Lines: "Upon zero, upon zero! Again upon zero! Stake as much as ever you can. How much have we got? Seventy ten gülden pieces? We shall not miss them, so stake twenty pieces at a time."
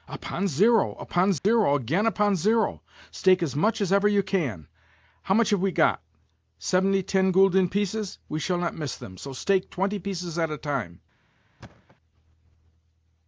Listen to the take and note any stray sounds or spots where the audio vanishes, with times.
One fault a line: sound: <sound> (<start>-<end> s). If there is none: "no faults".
sound: dropout (1.4-1.4 s)
sound: thud (11.6-12.0 s)